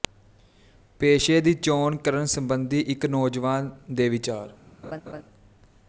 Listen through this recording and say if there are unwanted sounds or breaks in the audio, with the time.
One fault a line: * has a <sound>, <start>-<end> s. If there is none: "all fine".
* has a laugh, 4.8-5.2 s